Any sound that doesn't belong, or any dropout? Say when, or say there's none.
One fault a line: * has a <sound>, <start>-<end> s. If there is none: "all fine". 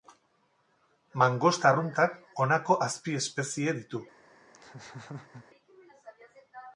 * has a laugh, 4.5-5.4 s